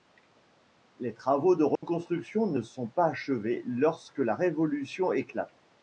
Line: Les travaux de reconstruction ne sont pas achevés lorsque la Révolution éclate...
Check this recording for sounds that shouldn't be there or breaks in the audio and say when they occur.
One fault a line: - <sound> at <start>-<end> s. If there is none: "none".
- dropout at 1.8-1.8 s